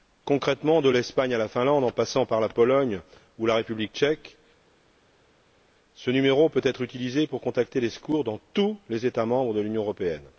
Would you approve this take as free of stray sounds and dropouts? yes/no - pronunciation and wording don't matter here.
yes